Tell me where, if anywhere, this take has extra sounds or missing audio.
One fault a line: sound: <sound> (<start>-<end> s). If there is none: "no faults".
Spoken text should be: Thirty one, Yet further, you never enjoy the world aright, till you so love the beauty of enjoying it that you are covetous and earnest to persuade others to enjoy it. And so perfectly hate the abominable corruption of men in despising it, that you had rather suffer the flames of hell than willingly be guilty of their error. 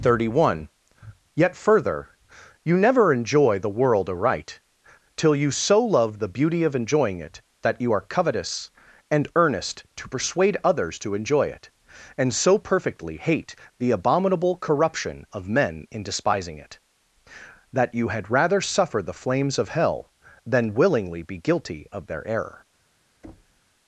sound: thud (23.2-23.6 s)